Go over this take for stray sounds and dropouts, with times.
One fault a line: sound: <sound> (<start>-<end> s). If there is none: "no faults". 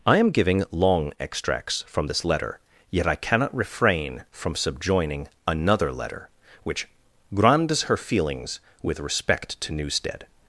no faults